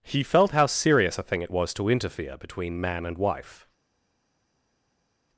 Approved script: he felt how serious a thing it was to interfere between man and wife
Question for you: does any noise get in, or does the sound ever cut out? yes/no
no